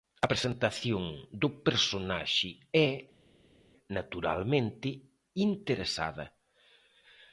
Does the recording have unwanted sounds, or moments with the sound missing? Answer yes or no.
no